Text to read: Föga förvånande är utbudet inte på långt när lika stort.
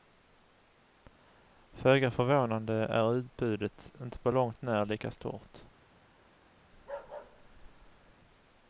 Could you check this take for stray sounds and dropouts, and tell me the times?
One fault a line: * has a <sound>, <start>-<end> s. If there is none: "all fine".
* has a bark, 6.7-8.1 s